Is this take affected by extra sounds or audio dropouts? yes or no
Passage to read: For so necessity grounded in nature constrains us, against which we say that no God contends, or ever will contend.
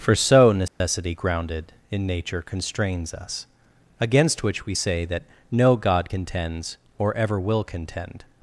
yes